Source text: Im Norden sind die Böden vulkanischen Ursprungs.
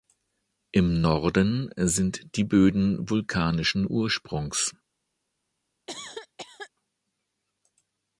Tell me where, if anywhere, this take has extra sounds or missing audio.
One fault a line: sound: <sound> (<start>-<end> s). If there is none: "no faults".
sound: cough (5.9-6.7 s)